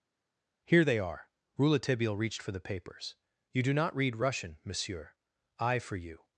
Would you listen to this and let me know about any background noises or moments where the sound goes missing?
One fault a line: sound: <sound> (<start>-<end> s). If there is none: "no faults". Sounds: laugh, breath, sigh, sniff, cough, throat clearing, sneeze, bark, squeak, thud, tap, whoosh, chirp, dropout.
no faults